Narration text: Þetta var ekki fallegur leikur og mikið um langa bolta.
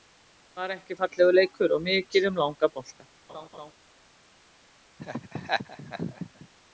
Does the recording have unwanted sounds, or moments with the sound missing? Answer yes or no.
yes